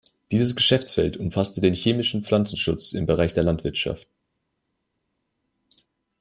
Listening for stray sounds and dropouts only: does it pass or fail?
pass